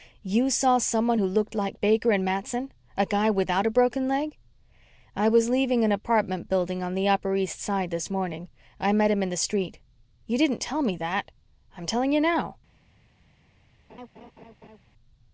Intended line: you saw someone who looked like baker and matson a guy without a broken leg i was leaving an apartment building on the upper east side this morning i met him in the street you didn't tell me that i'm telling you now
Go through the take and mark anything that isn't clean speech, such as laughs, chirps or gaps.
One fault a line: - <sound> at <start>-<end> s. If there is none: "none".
- laugh at 13.9-14.8 s